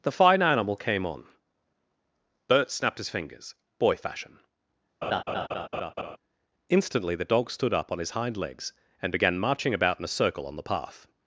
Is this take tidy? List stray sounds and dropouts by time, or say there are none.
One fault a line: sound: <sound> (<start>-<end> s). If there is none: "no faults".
sound: laugh (5.0-6.2 s)